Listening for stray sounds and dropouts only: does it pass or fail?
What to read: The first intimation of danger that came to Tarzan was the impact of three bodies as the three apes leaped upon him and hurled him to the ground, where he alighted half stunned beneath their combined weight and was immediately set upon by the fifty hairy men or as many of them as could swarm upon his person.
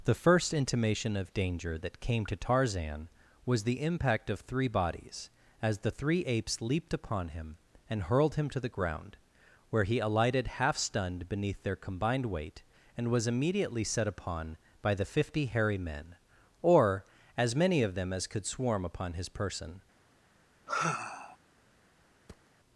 fail